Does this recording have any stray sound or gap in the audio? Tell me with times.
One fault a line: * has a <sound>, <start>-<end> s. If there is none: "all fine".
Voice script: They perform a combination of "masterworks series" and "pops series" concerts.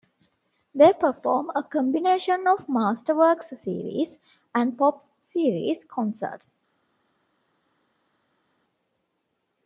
all fine